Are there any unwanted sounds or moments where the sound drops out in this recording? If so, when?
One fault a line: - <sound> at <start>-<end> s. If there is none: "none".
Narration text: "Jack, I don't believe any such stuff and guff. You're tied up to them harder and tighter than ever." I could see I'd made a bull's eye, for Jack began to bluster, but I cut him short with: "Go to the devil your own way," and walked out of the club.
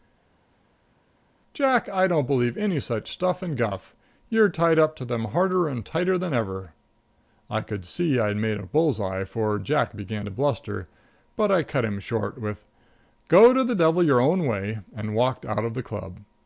none